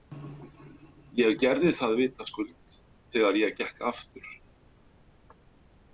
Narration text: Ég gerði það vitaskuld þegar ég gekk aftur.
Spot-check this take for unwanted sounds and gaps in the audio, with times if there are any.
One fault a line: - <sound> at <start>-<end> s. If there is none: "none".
none